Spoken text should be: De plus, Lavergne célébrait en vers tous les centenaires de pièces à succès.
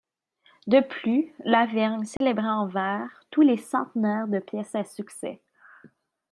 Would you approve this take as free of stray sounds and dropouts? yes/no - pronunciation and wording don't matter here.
no